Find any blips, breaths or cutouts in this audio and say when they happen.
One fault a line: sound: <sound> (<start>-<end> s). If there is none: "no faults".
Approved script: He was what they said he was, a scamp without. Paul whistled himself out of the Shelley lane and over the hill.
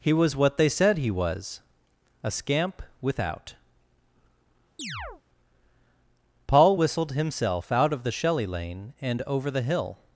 sound: chirp (4.8-5.2 s)